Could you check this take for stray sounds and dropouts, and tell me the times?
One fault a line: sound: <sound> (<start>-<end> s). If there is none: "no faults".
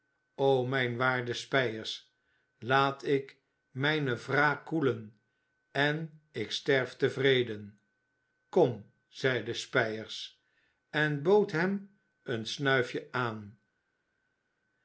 no faults